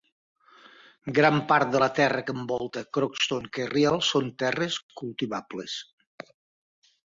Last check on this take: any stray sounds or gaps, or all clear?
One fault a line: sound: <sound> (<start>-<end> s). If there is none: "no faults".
no faults